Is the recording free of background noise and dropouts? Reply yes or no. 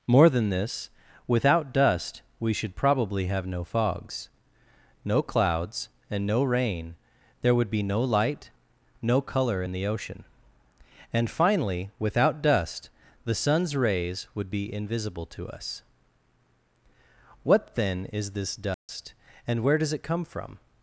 no